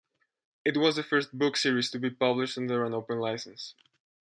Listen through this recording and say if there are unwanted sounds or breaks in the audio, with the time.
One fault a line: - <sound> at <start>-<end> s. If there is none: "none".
none